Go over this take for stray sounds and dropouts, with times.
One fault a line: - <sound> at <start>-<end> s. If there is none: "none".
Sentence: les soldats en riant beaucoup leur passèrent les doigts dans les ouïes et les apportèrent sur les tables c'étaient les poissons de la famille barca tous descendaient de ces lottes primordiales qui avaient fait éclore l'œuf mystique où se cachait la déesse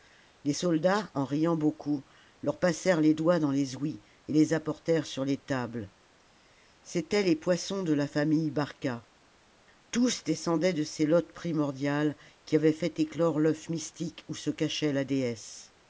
none